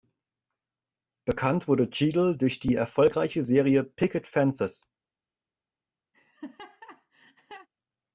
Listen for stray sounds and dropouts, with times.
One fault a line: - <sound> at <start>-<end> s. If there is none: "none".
- laugh at 6.1-7.7 s